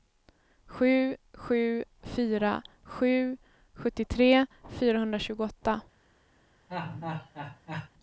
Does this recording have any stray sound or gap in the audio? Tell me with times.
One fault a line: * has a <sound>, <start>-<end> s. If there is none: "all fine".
* has a laugh, 6.7-7.9 s